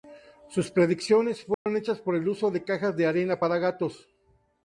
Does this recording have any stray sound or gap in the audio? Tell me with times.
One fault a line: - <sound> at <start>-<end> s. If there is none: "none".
- dropout at 1.5-1.7 s